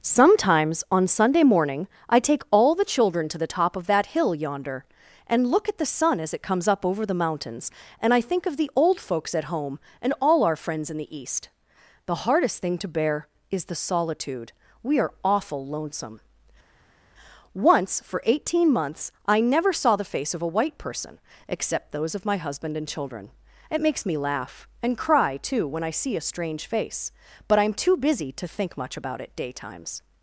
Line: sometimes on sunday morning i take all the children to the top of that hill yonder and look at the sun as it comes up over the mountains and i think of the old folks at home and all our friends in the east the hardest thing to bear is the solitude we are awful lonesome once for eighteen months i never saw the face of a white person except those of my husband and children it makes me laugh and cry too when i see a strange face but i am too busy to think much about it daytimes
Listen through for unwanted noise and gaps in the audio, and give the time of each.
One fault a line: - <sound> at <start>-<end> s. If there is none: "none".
none